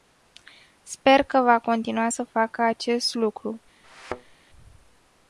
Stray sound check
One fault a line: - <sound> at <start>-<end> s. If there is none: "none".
- thud at 3.8-4.4 s